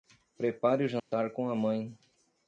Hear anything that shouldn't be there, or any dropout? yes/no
yes